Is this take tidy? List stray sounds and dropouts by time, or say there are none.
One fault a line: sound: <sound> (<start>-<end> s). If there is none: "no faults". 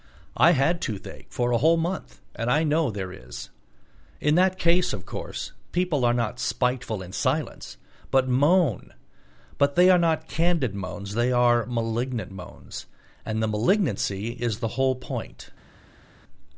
no faults